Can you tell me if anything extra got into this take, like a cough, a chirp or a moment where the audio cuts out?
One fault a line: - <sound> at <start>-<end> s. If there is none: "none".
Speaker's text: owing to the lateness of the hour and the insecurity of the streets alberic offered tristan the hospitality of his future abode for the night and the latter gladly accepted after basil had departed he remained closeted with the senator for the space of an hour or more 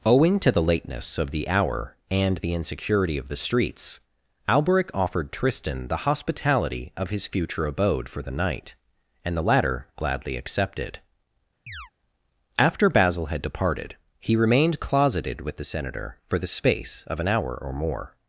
- chirp at 11.7-11.9 s